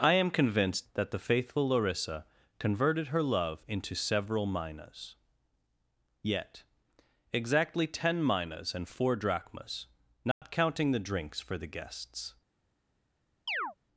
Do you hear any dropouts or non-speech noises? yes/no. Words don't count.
yes